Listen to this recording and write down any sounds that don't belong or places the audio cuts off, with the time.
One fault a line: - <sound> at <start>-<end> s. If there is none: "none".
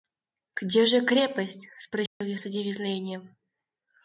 - dropout at 2.1-2.2 s